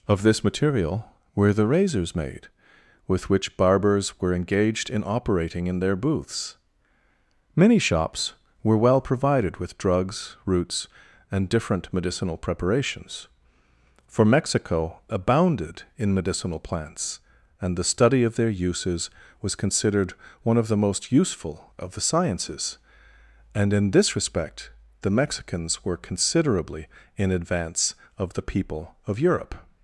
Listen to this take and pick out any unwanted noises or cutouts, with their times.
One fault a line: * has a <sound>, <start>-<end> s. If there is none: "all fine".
all fine